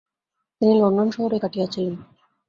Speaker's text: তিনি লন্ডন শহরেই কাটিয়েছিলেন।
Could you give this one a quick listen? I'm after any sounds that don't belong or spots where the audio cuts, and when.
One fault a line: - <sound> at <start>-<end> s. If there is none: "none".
none